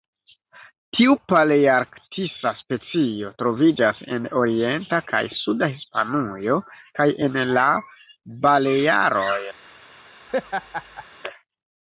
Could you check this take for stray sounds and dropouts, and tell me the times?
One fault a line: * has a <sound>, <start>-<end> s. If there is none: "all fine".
* has a laugh, 10.3-11.0 s